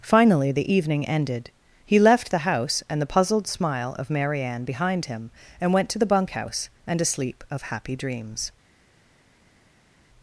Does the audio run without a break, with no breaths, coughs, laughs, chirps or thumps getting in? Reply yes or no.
yes